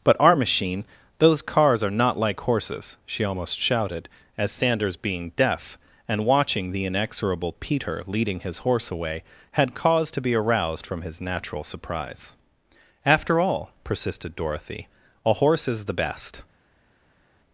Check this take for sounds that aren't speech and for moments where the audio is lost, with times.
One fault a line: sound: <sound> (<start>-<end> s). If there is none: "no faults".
no faults